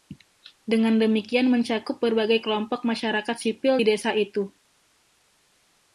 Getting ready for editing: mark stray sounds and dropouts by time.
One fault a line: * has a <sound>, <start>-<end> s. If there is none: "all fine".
all fine